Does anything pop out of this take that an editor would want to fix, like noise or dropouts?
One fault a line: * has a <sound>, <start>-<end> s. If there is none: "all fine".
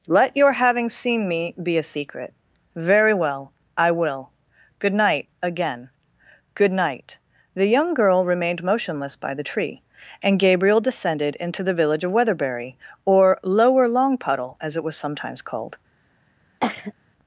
* has a cough, 16.6-16.9 s